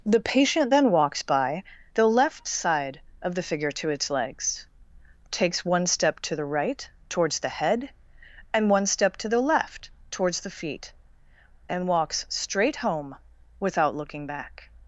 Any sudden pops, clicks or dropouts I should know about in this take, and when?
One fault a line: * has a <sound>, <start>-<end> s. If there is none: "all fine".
all fine